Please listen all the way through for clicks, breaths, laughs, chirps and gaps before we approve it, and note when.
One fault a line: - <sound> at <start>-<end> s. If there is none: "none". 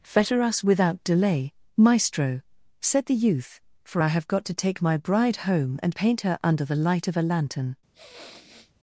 - sniff at 7.9-8.7 s